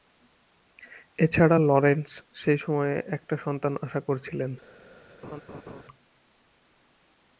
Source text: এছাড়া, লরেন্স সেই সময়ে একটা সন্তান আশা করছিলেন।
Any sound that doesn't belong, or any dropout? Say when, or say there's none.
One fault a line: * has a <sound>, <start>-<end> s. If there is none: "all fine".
* has a laugh, 5.2-5.8 s